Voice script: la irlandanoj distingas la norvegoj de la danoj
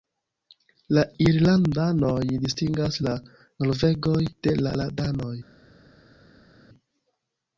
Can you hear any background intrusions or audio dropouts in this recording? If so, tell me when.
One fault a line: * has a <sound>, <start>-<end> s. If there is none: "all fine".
all fine